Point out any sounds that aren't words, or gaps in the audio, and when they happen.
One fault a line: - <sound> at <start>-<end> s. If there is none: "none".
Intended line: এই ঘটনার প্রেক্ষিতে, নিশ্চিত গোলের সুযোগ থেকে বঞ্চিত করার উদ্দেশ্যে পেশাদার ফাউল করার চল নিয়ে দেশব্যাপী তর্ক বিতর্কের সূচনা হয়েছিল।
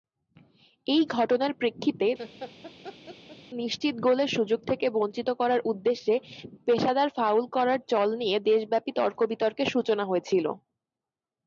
- laugh at 2.2-3.4 s